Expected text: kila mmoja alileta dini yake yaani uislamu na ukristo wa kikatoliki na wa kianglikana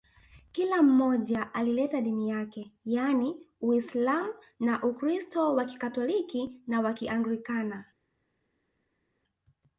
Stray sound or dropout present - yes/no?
no